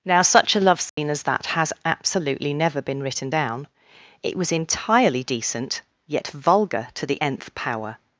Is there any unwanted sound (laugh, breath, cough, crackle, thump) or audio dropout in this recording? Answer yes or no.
yes